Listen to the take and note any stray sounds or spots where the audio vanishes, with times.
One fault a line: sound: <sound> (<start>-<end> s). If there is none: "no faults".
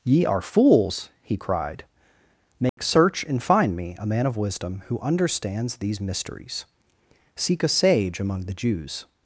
sound: dropout (2.7-2.8 s)